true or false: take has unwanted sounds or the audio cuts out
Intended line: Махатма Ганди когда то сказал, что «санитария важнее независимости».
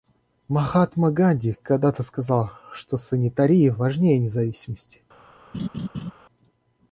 true